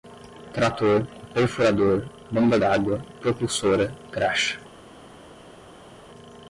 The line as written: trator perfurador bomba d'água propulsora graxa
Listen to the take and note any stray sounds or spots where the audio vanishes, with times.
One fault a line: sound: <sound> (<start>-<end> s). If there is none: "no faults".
no faults